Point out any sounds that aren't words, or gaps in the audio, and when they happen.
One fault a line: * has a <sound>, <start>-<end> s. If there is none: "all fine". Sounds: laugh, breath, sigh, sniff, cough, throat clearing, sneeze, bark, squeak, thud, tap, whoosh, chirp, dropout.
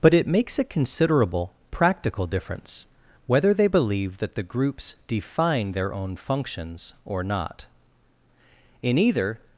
all fine